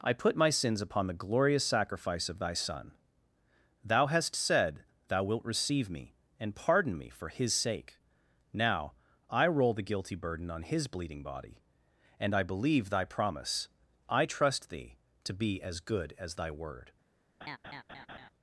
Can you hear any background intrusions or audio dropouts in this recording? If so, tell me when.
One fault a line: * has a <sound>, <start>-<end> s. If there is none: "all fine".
* has a laugh, 17.4-18.3 s